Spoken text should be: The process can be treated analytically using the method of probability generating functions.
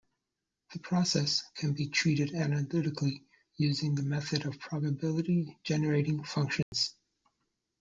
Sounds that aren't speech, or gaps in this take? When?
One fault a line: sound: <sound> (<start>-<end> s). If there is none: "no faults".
sound: dropout (6.6-6.7 s)